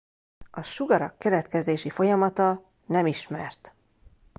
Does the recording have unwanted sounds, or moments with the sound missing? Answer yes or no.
no